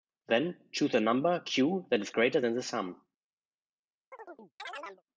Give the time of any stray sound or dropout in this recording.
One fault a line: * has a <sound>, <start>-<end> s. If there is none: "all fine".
* has a chirp, 4.1-5.0 s